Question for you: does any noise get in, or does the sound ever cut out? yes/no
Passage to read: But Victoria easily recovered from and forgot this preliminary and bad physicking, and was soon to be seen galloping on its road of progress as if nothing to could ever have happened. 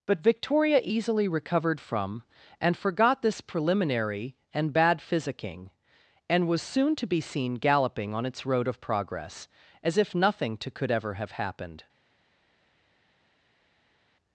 no